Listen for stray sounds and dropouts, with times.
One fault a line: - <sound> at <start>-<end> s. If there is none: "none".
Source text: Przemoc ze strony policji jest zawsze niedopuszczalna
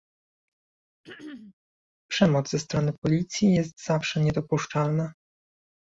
- throat clearing at 1.0-1.5 s